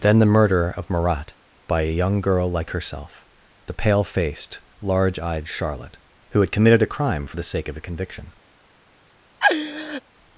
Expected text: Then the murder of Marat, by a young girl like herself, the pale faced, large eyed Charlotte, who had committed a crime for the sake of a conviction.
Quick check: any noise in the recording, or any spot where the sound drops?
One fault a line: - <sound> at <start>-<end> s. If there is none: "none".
- laugh at 9.4-10.0 s